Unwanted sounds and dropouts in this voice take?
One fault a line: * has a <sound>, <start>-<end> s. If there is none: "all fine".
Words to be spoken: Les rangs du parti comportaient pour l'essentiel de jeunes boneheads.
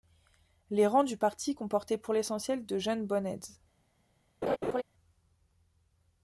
* has a laugh, 4.4-4.8 s